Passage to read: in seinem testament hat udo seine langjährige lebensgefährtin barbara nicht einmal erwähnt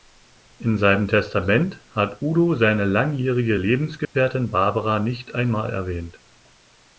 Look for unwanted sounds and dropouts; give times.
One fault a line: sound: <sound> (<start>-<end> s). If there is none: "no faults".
sound: dropout (4.0-4.2 s)